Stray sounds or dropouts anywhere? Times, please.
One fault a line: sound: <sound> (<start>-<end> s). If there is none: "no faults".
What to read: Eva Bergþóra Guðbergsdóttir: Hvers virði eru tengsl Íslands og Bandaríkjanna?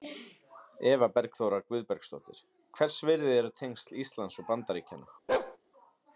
sound: bark (5.3-5.6 s)